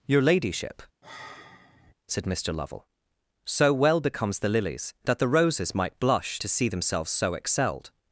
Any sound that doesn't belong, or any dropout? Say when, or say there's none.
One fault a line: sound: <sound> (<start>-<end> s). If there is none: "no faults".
sound: sigh (1.0-1.9 s)